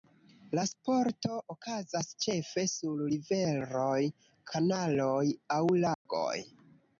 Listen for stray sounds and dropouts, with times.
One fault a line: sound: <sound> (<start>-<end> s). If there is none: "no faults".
sound: dropout (5.9-6.1 s)